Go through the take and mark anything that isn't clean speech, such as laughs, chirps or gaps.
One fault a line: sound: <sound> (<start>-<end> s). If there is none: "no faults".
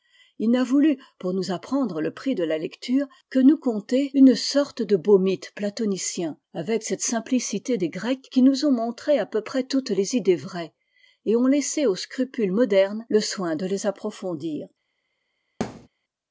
sound: thud (15.6-15.9 s)